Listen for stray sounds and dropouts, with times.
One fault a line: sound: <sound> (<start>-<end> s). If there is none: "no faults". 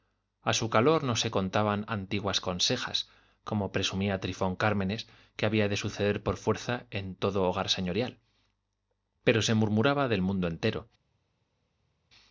no faults